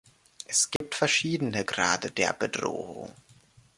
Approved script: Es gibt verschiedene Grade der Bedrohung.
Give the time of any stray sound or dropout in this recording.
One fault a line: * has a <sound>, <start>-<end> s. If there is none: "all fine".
* has a dropout, 0.8-0.8 s